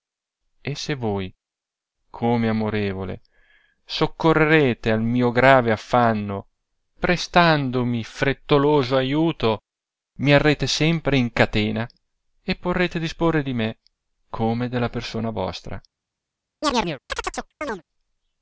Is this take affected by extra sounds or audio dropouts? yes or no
yes